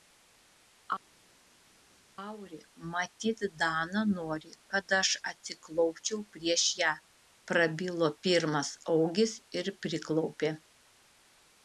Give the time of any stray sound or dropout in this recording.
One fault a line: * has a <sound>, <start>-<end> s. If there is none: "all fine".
all fine